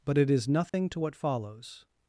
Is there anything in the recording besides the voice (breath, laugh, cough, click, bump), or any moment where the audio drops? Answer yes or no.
yes